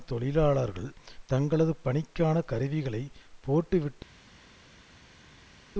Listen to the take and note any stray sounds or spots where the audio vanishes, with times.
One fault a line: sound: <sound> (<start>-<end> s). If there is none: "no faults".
no faults